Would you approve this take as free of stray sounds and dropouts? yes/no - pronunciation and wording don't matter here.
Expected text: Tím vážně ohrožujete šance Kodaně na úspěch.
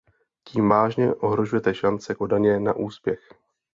yes